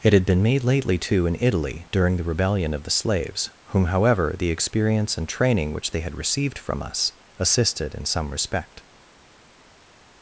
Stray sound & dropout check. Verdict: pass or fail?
pass